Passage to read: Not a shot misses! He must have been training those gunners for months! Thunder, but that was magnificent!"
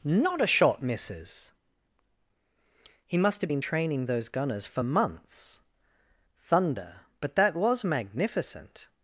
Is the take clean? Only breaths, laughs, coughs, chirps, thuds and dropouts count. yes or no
yes